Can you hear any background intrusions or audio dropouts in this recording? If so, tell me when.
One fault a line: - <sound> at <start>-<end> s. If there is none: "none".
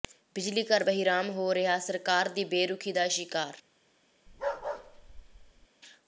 - bark at 4.3-5.7 s